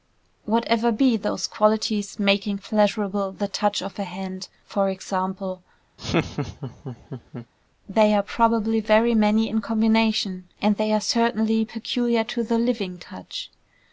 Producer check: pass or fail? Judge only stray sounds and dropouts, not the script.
fail